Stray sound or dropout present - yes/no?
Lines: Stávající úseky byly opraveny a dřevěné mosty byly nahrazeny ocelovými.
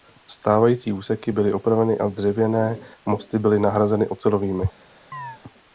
yes